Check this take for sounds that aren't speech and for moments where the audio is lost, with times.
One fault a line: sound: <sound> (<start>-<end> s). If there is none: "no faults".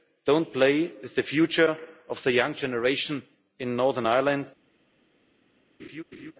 sound: laugh (5.8-6.3 s)